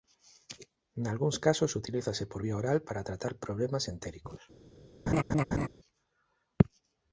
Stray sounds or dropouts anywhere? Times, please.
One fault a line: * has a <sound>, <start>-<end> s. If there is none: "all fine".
* has a laugh, 5.1-5.7 s